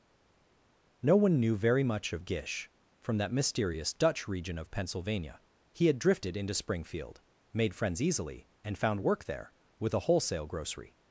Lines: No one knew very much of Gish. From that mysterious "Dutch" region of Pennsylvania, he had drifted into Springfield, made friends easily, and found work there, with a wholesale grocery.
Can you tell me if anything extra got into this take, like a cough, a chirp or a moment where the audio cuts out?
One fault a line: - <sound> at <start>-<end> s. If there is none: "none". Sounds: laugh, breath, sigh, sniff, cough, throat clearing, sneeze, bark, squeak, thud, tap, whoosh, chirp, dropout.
none